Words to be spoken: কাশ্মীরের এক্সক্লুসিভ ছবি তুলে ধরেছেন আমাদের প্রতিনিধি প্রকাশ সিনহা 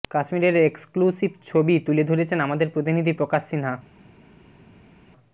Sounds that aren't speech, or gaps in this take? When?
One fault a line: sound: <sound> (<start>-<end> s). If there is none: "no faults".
no faults